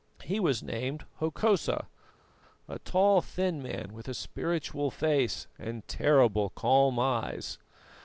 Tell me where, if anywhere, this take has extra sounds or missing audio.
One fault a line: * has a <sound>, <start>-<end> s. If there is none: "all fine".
all fine